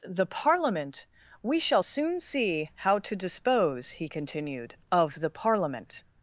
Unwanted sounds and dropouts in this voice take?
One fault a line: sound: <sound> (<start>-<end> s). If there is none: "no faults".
no faults